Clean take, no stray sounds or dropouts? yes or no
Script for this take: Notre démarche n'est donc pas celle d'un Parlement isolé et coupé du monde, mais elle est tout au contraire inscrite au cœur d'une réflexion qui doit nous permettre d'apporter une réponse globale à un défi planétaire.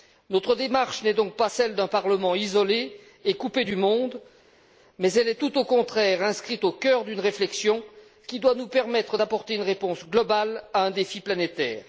yes